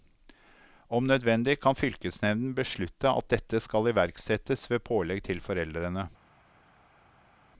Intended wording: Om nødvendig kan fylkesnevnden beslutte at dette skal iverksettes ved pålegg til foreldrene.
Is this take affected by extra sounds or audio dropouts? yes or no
no